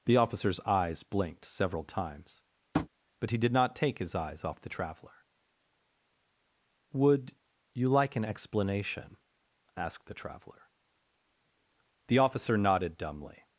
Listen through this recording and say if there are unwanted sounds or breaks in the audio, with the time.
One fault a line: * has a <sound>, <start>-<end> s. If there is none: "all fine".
* has a tap, 2.7-2.9 s